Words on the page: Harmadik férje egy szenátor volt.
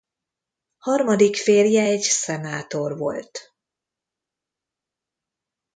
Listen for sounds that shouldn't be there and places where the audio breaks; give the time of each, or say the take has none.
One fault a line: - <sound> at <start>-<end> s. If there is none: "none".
none